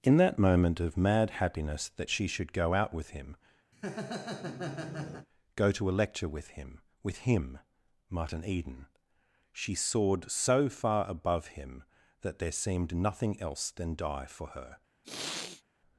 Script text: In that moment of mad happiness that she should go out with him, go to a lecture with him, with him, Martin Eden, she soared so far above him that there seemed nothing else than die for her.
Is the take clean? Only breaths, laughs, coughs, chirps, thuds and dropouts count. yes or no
no